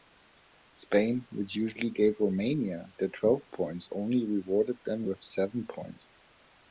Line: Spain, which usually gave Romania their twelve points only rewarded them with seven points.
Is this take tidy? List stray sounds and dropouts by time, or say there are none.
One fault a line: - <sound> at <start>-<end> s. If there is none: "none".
none